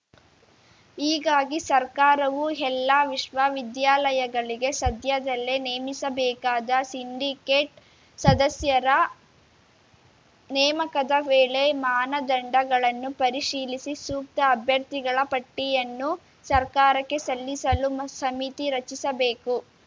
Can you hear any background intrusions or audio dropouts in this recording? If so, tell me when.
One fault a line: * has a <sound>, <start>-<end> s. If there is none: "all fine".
all fine